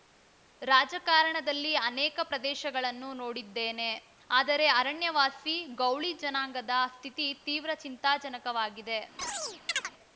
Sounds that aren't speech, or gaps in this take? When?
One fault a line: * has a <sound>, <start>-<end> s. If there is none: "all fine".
* has a chirp, 9.2-9.9 s